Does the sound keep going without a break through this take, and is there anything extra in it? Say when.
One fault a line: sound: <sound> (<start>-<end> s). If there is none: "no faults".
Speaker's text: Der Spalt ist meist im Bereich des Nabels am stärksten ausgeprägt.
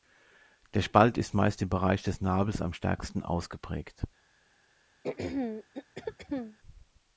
sound: throat clearing (5.0-6.6 s)